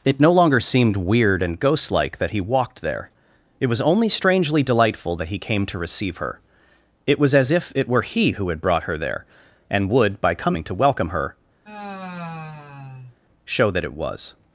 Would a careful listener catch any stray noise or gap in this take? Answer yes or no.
yes